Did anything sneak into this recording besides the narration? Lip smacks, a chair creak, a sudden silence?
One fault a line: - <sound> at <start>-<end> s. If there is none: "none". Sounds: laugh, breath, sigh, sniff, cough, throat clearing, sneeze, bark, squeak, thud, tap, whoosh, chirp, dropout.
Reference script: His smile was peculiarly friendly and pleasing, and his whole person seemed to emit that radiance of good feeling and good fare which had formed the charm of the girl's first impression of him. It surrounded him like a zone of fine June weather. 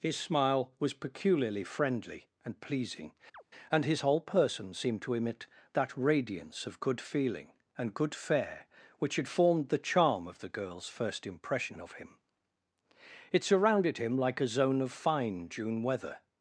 - chirp at 3.3-3.4 s